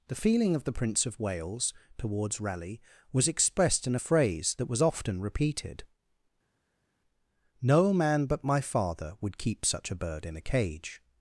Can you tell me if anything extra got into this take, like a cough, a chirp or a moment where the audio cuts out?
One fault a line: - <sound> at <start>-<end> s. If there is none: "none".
none